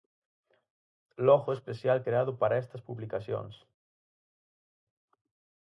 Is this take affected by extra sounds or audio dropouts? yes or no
no